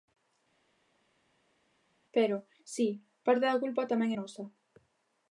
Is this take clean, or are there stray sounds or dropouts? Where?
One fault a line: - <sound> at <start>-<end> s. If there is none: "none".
none